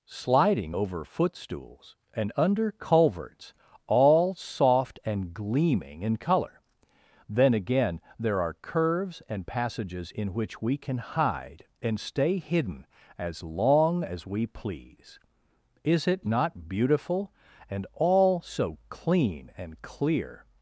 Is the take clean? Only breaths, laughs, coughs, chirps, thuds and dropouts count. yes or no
yes